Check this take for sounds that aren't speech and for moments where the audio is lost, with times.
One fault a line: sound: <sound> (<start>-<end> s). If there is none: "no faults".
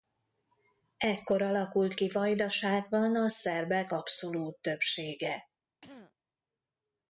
sound: throat clearing (5.8-6.1 s)